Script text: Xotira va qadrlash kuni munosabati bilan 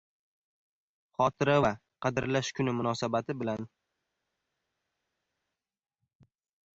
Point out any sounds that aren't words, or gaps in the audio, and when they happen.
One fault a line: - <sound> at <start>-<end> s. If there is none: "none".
none